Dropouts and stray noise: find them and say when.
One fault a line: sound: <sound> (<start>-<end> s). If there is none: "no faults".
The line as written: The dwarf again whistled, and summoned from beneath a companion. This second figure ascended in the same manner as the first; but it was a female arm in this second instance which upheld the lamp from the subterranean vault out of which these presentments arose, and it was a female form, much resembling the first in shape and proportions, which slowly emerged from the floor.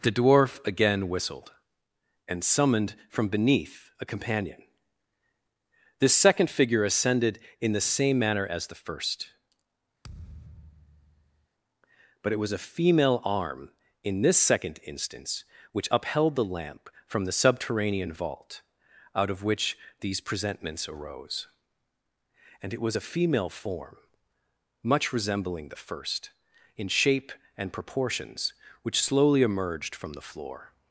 sound: thud (10.0-11.5 s)